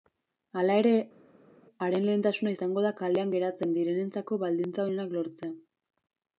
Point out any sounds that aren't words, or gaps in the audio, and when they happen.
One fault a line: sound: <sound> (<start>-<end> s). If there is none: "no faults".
no faults